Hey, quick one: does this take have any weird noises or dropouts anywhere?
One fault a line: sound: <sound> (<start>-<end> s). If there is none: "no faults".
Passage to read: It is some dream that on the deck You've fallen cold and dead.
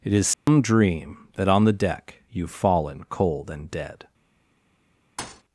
sound: dropout (0.3-0.5 s)
sound: thud (5.2-5.4 s)